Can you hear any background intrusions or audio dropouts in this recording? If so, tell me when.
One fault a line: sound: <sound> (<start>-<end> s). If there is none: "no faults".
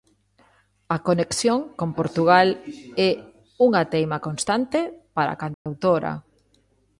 sound: dropout (5.5-5.7 s)